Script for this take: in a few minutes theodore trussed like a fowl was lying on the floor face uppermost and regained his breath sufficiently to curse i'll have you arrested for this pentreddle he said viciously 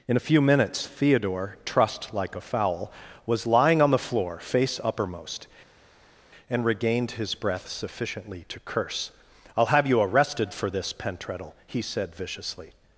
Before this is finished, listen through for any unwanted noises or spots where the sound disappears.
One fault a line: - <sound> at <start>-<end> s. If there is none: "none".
none